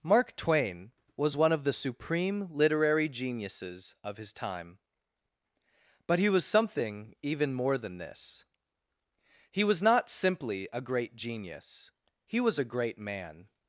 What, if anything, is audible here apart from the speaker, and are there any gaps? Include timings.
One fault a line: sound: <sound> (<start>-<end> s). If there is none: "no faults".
no faults